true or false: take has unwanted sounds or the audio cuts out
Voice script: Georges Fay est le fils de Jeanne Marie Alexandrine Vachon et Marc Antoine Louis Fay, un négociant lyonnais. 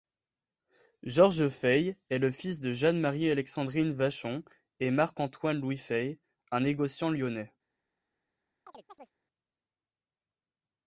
true